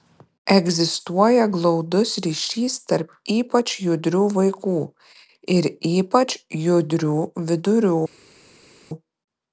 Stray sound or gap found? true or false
false